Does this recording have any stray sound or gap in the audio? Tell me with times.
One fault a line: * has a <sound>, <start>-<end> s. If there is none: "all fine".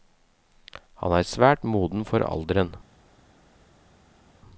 all fine